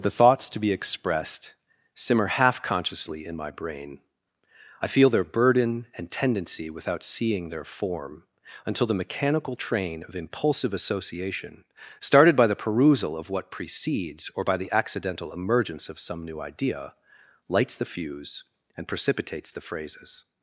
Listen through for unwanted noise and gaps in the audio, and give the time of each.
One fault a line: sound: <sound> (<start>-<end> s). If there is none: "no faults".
no faults